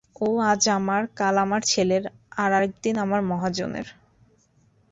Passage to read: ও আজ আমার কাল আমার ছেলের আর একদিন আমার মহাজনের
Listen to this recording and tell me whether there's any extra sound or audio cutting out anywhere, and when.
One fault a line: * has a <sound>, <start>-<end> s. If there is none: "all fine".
all fine